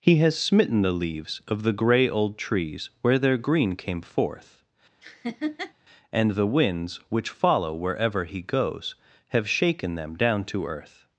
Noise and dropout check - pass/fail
fail